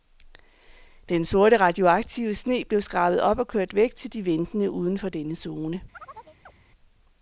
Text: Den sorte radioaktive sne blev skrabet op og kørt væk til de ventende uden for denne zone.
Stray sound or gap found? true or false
true